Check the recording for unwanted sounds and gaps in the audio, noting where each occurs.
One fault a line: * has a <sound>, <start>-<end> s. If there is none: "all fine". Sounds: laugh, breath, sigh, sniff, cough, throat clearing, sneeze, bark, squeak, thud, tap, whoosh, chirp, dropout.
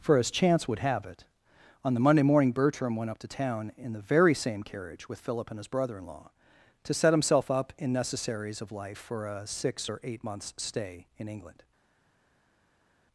all fine